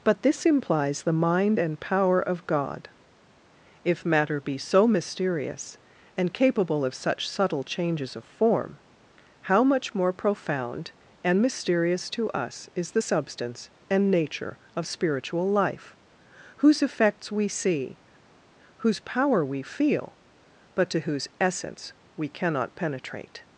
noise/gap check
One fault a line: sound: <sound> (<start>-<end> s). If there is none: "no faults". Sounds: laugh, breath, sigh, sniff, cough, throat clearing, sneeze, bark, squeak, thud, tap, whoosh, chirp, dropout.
no faults